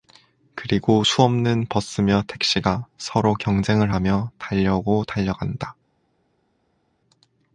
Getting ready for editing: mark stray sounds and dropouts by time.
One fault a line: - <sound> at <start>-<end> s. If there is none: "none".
none